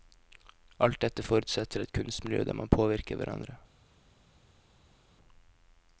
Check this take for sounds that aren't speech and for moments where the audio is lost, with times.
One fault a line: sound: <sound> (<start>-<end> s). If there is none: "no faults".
no faults